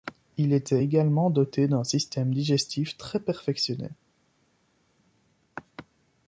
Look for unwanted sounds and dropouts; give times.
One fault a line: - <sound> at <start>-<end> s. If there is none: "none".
none